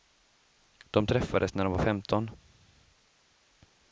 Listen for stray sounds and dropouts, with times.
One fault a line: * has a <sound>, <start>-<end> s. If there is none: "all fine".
all fine